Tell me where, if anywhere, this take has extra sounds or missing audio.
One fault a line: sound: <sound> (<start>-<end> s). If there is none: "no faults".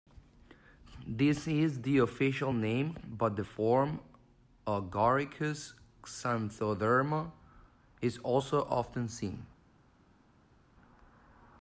no faults